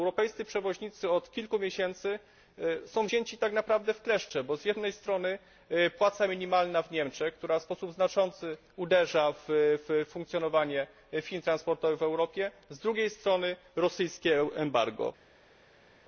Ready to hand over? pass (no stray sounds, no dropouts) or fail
pass